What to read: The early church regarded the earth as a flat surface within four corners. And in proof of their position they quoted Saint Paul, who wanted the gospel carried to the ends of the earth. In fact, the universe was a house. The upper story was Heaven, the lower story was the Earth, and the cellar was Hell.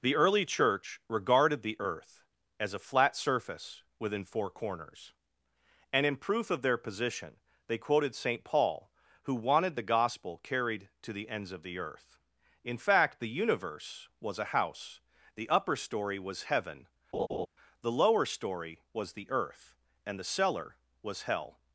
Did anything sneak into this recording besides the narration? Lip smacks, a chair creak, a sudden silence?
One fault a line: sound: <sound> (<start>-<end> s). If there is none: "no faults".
sound: laugh (17.1-17.5 s)